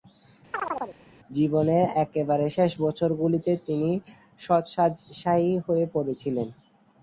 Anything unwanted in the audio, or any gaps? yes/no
yes